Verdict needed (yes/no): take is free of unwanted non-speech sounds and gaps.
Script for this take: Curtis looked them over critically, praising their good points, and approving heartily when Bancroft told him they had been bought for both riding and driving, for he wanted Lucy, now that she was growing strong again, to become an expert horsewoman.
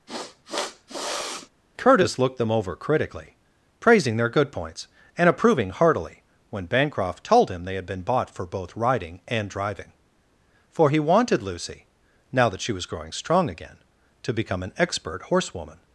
no